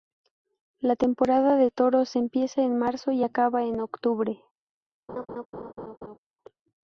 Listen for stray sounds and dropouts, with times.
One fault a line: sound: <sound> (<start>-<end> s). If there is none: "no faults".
sound: laugh (5.1-6.2 s)